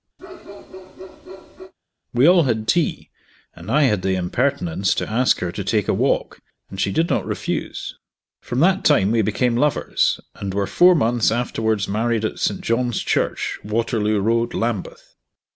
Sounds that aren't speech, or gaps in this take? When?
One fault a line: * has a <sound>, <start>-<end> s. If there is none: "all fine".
* has a bark, 0.2-1.7 s